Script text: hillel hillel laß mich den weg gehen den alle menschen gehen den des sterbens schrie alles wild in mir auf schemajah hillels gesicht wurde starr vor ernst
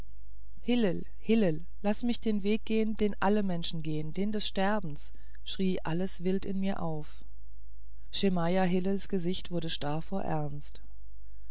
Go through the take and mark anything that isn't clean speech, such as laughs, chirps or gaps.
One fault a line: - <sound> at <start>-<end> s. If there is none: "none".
none